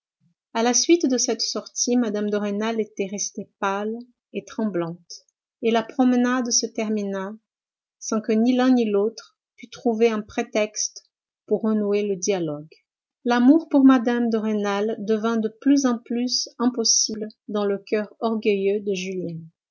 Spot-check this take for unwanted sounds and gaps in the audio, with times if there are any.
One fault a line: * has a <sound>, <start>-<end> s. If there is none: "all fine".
all fine